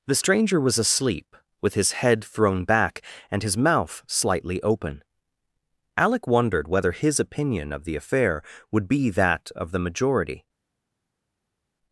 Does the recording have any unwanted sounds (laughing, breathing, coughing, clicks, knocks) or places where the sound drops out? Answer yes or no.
no